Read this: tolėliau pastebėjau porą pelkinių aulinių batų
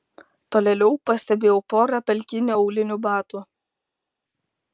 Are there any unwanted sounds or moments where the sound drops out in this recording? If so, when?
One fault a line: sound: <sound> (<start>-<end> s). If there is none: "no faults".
no faults